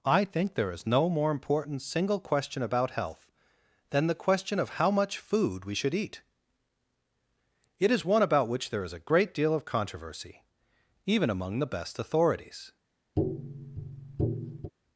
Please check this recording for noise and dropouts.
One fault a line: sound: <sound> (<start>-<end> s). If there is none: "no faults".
sound: tap (13.2-14.7 s)